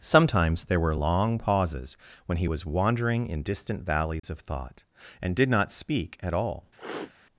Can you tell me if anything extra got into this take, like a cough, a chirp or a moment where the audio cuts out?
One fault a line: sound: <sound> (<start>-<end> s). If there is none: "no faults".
sound: dropout (4.2-4.2 s)
sound: sniff (6.8-7.1 s)